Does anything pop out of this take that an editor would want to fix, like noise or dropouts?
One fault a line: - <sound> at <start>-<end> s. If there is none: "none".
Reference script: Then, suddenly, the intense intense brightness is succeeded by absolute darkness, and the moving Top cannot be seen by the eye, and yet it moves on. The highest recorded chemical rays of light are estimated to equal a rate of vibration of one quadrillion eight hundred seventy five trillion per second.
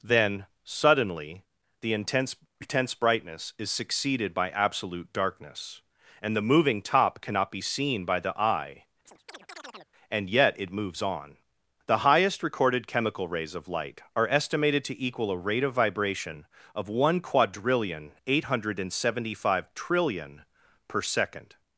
- chirp at 9.1-9.9 s